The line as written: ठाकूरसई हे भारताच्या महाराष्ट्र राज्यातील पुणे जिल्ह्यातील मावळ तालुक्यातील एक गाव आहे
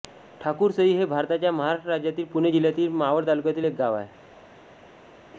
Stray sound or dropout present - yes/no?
no